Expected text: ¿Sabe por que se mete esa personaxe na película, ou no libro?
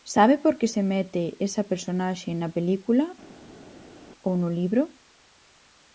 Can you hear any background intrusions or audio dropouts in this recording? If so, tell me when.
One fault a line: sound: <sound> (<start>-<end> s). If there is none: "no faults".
no faults